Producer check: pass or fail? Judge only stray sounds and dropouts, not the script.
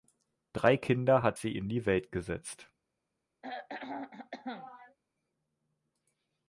fail